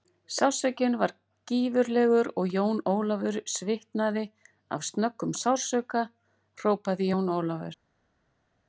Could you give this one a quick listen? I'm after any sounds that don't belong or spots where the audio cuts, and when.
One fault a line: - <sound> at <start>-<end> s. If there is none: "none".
none